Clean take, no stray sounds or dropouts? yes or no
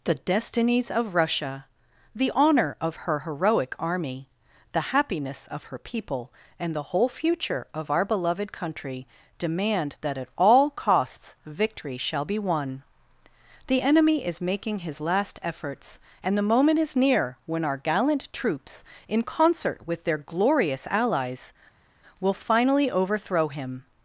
yes